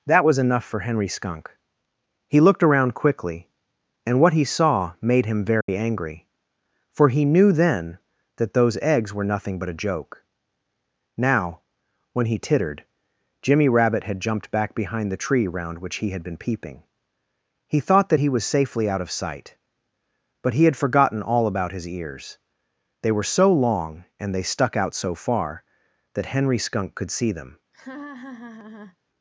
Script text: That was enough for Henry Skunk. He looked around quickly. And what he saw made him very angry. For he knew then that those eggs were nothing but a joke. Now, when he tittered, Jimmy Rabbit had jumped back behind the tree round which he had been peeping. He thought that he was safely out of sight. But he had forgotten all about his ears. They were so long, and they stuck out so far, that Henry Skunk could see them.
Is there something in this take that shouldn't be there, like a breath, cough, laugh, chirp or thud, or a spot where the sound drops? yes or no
yes